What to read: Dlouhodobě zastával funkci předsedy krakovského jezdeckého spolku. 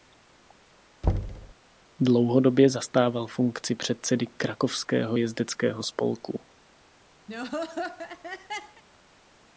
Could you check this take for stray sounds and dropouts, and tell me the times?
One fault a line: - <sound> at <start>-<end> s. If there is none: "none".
- thud at 1.0-1.5 s
- laugh at 7.3-8.8 s